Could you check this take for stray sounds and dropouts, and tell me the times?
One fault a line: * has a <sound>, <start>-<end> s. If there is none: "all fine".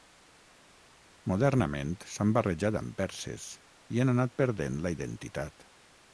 all fine